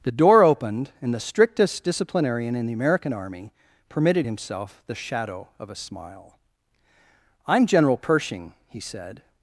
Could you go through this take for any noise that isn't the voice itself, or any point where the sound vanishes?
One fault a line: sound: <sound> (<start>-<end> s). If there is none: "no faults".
no faults